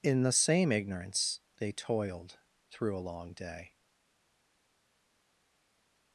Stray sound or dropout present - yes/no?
no